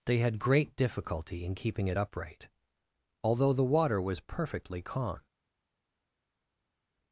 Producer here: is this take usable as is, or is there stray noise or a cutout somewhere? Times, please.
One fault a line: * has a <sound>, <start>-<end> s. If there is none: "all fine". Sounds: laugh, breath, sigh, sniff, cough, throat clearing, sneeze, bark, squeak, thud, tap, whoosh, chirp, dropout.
all fine